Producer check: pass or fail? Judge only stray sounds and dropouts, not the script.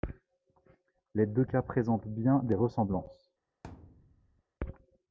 fail